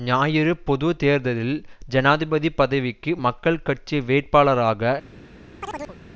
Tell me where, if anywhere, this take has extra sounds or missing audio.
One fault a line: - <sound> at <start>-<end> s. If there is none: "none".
- chirp at 5.6-6.0 s